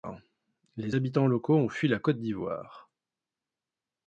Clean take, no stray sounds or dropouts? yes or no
yes